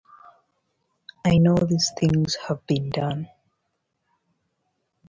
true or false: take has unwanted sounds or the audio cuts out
false